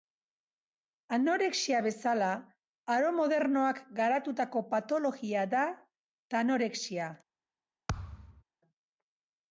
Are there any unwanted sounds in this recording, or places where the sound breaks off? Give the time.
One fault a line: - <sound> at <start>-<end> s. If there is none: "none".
- thud at 7.9-8.4 s